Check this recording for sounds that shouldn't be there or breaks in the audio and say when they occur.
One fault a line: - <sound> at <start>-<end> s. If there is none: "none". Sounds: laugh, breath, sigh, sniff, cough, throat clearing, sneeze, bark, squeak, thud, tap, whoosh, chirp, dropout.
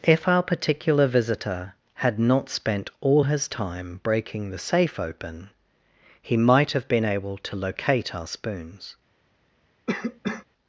- cough at 9.9-10.5 s